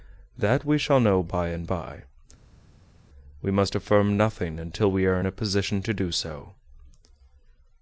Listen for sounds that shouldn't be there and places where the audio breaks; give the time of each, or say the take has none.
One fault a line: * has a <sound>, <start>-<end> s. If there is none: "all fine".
all fine